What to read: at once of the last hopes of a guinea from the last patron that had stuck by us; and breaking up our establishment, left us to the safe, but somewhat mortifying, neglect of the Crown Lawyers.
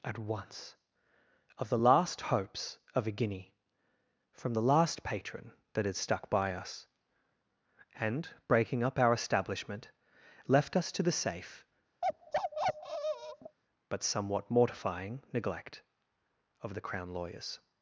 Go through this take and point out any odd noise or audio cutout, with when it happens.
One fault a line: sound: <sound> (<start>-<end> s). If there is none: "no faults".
sound: bark (12.0-13.6 s)